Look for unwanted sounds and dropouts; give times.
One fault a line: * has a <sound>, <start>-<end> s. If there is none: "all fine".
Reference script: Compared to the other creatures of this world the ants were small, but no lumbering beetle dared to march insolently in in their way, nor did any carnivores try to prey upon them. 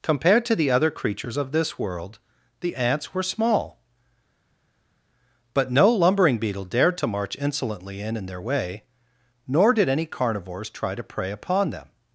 all fine